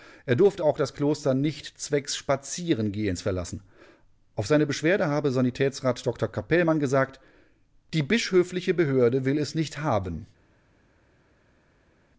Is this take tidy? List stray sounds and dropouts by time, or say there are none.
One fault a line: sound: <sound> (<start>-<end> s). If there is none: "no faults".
no faults